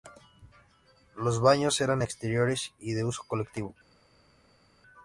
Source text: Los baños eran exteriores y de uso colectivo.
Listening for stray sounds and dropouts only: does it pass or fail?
pass